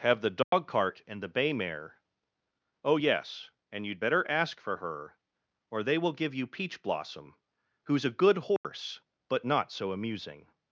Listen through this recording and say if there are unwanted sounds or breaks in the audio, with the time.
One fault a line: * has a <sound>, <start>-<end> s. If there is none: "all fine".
* has a dropout, 0.4-0.5 s
* has a dropout, 8.6-8.6 s